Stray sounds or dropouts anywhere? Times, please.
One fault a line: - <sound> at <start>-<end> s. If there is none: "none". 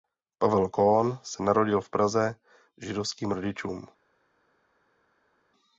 none